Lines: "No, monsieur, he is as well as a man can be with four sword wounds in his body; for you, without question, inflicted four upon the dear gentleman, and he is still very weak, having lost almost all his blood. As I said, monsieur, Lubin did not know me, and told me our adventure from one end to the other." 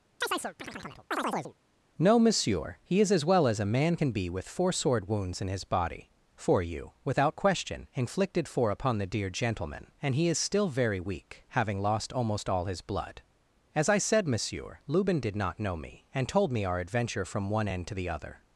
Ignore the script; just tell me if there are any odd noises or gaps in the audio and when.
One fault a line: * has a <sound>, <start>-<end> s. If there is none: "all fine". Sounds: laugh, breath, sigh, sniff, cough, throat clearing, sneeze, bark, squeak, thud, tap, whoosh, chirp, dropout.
* has a chirp, 0.2-1.5 s